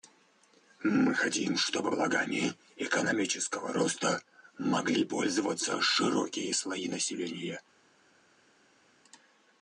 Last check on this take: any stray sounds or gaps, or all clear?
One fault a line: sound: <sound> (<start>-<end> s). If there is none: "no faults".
no faults